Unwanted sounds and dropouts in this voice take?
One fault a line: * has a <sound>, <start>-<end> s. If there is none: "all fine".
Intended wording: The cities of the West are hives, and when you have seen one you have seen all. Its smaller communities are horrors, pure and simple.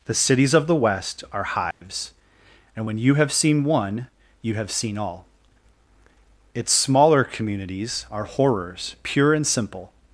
* has a dropout, 1.7-1.8 s